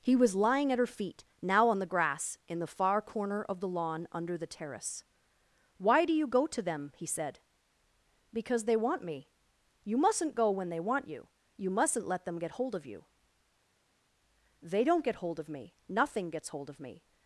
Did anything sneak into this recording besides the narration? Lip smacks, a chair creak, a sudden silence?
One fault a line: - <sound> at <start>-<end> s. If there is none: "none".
none